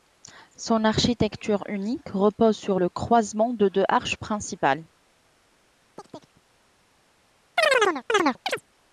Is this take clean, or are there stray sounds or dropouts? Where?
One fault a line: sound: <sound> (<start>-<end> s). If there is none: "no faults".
sound: chirp (6.0-6.4 s)
sound: chirp (7.6-8.6 s)